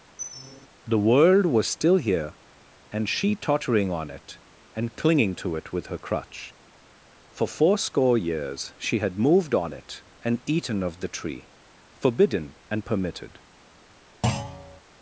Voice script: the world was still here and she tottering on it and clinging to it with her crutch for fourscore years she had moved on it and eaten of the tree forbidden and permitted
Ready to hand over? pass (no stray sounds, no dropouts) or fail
fail